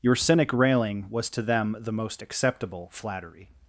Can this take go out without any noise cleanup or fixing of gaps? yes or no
yes